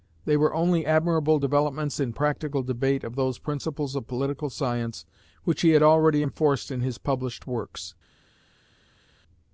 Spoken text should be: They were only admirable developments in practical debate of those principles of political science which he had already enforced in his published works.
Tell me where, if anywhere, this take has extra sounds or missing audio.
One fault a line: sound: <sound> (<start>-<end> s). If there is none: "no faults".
no faults